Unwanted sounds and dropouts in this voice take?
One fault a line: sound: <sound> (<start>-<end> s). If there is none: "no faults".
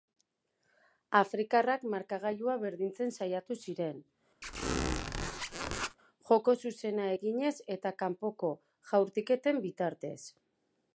sound: squeak (4.4-6.0 s)